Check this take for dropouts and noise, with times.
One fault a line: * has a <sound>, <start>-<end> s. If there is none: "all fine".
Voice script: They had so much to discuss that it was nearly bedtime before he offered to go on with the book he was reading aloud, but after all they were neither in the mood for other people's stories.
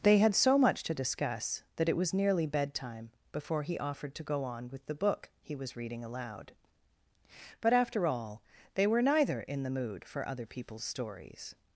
all fine